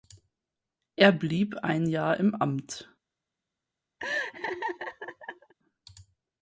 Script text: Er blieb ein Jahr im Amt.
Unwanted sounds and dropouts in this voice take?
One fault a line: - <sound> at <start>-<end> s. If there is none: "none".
- laugh at 4.0-5.5 s